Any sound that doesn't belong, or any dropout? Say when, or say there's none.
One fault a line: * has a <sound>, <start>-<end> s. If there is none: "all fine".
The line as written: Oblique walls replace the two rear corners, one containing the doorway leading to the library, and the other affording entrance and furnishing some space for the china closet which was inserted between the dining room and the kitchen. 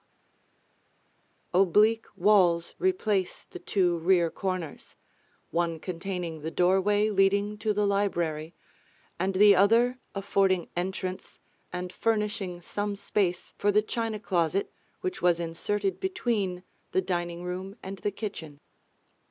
all fine